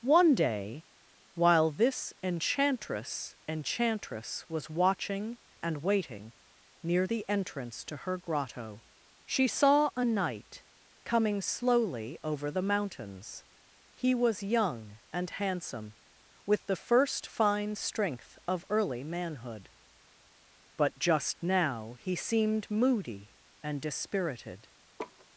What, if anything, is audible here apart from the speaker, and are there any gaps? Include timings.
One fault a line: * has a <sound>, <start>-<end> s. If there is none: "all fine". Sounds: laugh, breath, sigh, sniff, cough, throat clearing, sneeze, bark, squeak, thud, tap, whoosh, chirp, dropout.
* has a laugh, 25.0-25.3 s